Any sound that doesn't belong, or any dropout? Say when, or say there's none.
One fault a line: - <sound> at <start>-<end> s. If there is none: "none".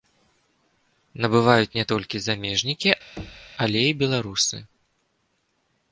- thud at 3.2-3.5 s